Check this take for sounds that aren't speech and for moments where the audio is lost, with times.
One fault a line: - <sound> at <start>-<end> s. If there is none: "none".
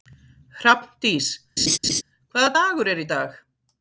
- laugh at 1.6-2.0 s